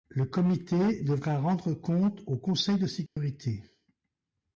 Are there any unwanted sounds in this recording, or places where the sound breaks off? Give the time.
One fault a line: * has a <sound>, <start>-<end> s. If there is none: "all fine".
* has a dropout, 3.1-3.2 s